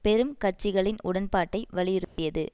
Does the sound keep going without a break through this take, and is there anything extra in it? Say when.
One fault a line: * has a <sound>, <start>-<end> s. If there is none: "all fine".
* has a dropout, 2.0-2.2 s